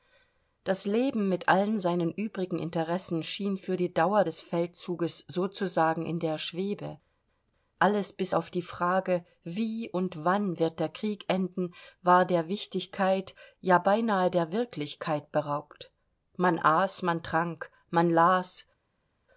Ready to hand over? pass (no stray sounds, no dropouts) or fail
pass